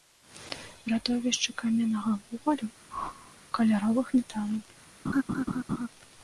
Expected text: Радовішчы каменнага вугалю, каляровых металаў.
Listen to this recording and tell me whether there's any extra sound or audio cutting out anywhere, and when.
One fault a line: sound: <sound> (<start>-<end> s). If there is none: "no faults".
sound: whoosh (2.9-3.4 s)
sound: laugh (5.0-5.9 s)